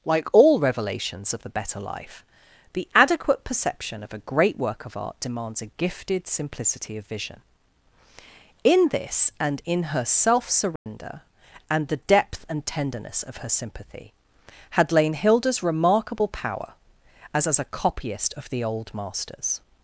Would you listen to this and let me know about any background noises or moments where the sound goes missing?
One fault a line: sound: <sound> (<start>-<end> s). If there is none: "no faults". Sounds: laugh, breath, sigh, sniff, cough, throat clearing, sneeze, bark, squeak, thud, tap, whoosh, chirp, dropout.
sound: dropout (10.8-10.9 s)